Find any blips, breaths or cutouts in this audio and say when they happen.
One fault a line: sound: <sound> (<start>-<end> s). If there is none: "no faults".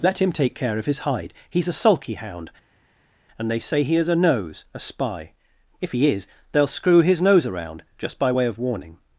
no faults